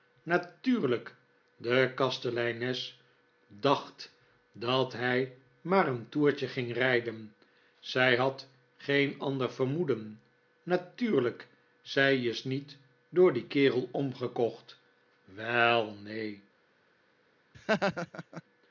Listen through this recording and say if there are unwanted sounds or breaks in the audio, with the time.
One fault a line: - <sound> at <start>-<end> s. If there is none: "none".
- laugh at 17.5-18.4 s